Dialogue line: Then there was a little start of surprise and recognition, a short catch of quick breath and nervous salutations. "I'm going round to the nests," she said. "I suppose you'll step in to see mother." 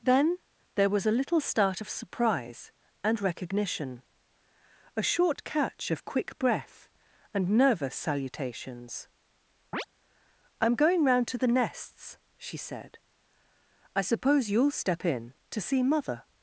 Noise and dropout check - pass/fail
fail